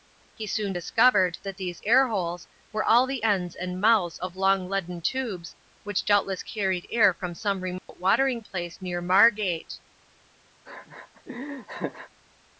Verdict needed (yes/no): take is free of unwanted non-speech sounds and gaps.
no